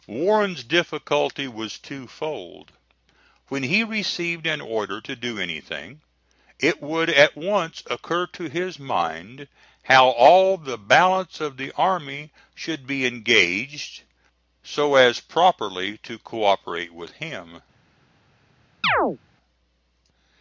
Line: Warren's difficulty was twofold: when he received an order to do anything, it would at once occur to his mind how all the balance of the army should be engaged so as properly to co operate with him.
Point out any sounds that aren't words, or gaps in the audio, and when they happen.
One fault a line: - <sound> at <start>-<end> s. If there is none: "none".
- chirp at 18.8-19.2 s